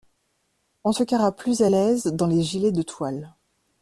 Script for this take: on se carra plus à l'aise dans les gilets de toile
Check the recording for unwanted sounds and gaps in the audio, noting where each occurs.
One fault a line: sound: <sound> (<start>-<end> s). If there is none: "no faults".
no faults